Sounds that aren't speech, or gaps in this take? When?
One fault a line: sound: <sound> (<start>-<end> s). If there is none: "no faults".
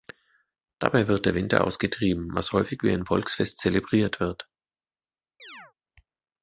sound: chirp (5.4-5.7 s)